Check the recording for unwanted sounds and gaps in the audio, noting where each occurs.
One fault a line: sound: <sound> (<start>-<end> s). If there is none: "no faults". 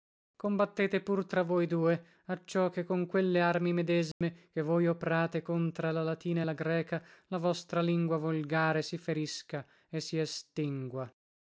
sound: dropout (4.1-4.2 s)